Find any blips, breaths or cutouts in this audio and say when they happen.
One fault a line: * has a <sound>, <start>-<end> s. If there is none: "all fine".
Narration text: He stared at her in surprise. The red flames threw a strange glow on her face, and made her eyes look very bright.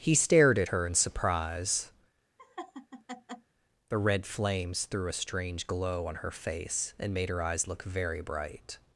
* has a laugh, 2.4-3.5 s